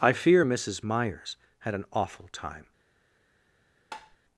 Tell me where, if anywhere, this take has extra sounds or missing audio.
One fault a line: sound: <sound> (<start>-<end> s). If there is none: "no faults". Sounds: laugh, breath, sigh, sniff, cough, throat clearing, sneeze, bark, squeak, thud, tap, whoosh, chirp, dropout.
sound: tap (3.9-4.2 s)